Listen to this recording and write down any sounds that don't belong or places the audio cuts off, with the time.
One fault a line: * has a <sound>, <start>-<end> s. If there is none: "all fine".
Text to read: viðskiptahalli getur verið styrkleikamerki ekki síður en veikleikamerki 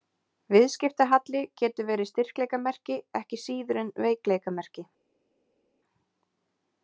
all fine